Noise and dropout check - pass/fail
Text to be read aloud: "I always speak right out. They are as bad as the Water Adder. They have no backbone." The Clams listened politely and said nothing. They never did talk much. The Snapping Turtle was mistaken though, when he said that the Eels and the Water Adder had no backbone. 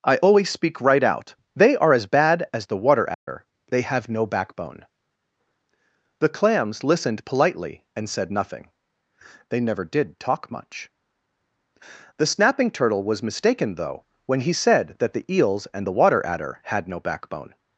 fail